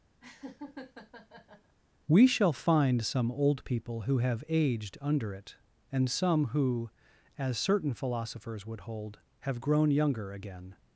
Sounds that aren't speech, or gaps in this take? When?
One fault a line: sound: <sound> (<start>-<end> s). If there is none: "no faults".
sound: laugh (0.2-1.8 s)